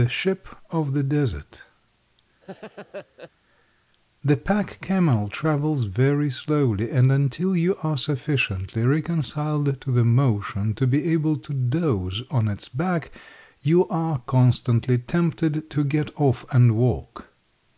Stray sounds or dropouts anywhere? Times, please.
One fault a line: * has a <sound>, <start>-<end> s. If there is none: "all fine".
* has a laugh, 2.4-3.3 s